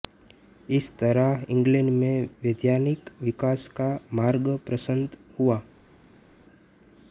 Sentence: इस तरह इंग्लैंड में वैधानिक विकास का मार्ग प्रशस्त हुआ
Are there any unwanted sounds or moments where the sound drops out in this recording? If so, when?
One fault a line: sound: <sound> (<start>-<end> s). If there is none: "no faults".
no faults